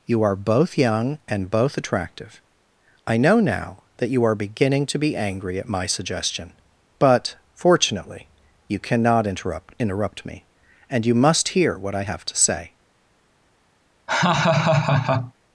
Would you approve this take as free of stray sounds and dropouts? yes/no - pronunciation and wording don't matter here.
no